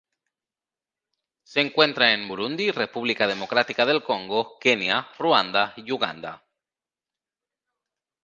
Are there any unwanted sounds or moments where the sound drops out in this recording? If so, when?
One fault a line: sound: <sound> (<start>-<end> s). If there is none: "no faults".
no faults